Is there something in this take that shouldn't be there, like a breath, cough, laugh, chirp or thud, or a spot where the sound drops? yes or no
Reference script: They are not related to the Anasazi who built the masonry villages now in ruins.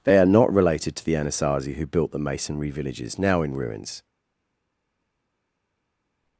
no